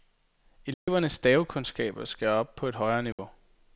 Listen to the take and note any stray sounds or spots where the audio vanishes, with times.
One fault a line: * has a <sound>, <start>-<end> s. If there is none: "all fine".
* has a dropout, 0.7-0.9 s
* has a dropout, 3.1-3.2 s